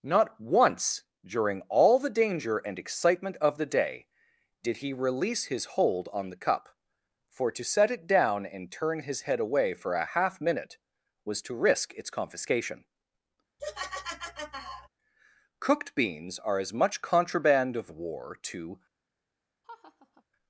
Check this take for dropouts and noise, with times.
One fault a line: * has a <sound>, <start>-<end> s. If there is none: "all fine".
* has a laugh, 13.6-14.9 s
* has a laugh, 19.6-20.2 s